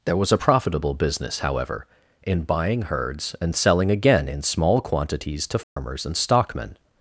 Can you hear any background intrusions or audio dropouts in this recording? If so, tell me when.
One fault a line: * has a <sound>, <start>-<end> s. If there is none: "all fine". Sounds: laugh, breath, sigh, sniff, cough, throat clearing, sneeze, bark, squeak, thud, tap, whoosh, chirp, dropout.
* has a dropout, 5.6-5.8 s